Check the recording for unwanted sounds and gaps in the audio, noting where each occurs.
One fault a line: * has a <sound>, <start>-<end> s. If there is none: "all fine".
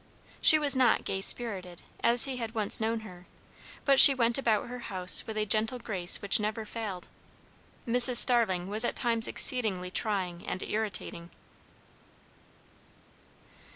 all fine